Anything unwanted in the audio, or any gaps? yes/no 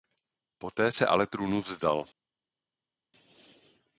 no